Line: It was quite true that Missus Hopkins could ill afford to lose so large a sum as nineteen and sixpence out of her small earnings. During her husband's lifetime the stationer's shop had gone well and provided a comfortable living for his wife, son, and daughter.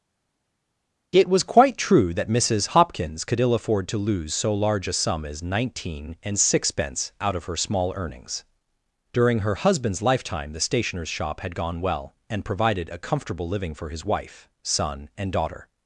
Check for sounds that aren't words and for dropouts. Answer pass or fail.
pass